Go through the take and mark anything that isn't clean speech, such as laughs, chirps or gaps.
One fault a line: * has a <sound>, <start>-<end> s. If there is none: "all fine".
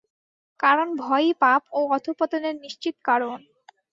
all fine